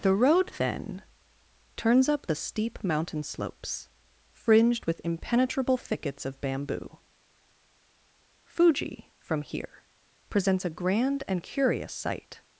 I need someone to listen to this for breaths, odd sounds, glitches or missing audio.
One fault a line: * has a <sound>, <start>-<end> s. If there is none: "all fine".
all fine